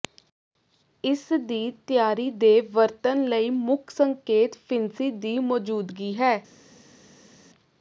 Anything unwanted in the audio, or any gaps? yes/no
no